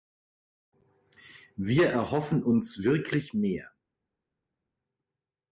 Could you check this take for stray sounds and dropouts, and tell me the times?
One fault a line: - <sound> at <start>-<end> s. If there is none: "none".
none